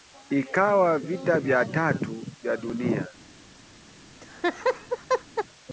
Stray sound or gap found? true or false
true